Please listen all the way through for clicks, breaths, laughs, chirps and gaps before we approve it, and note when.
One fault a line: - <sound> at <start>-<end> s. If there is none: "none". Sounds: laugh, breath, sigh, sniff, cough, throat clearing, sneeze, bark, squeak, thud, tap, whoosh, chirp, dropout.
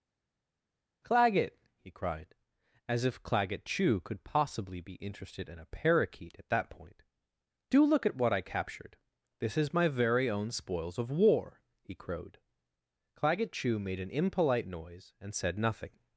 none